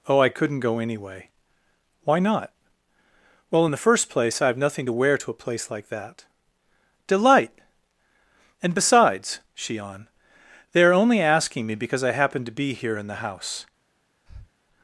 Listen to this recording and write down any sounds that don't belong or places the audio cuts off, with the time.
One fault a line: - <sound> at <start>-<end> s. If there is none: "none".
- breath at 14.3-14.5 s